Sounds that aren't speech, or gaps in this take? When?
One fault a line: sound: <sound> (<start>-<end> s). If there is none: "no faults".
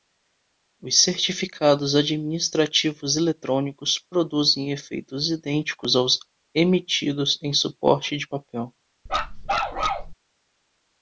sound: bark (9.1-10.1 s)